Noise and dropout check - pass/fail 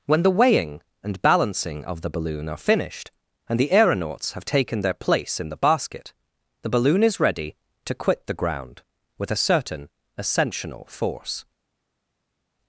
pass